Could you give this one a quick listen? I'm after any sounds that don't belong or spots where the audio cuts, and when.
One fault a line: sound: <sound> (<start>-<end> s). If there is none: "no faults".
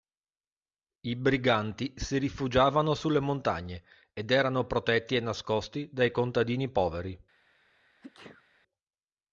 sound: sneeze (8.0-8.4 s)